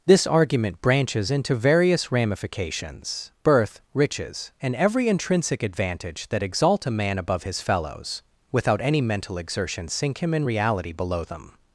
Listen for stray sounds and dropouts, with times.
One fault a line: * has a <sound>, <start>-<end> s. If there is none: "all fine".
all fine